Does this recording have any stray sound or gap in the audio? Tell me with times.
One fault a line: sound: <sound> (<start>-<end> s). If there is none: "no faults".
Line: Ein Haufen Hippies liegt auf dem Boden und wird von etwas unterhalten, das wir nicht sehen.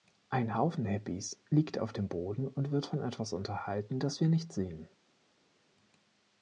no faults